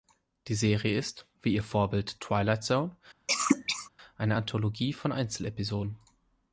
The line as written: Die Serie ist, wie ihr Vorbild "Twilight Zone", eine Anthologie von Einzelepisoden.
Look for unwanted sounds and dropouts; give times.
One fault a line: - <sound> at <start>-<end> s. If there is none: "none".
- cough at 3.3-3.9 s